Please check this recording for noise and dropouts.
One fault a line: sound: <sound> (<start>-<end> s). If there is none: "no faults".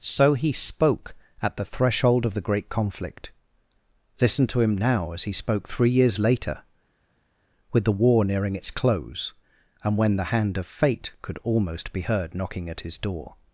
no faults